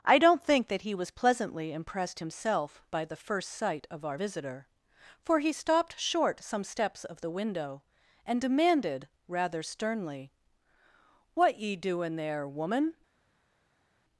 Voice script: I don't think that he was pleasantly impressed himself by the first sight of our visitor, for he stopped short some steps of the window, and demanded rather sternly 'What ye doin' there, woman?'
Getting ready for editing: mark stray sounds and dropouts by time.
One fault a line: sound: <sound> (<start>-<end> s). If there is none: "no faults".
no faults